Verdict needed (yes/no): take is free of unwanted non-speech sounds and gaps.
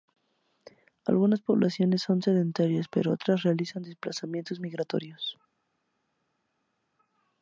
yes